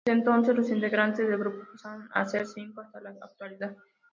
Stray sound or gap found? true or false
false